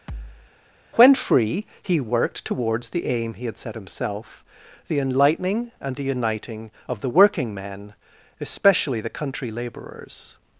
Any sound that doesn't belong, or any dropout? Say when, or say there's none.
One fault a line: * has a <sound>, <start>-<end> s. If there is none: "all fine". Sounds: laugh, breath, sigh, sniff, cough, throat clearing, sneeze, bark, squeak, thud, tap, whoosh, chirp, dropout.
* has a thud, 0.1-0.5 s